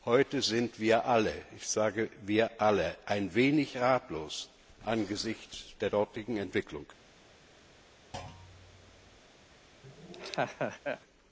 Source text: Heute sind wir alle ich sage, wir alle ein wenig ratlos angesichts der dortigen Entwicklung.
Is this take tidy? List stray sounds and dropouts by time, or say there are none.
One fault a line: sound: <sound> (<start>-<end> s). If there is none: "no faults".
sound: thud (8.1-9.2 s)
sound: laugh (9.8-11.0 s)